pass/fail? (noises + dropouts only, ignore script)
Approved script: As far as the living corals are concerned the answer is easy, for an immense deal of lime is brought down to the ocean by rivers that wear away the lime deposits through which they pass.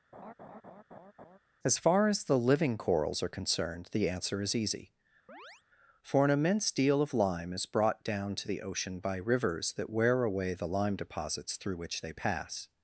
fail